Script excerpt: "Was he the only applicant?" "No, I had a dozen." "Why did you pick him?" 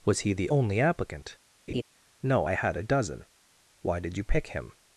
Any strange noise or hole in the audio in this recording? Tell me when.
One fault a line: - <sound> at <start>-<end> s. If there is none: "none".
- laugh at 1.7-1.8 s